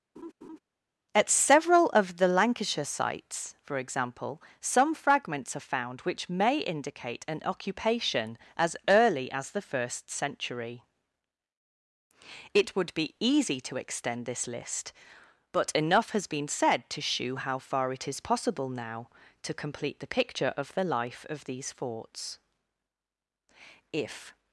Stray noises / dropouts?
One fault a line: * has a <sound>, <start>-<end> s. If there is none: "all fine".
* has a laugh, 0.2-0.6 s